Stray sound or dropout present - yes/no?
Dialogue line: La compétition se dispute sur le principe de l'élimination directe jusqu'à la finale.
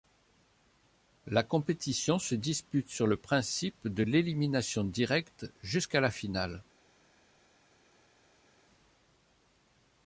no